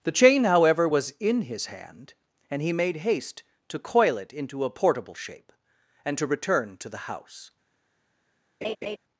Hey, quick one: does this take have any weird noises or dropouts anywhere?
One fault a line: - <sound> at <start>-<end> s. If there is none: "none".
- laugh at 8.6-9.0 s